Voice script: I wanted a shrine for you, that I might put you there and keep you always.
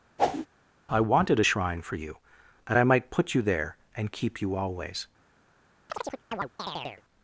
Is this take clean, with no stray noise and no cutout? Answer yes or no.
no